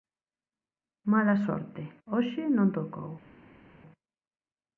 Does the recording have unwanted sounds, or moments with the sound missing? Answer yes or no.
no